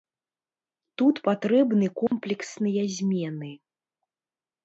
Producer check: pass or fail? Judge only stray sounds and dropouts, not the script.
fail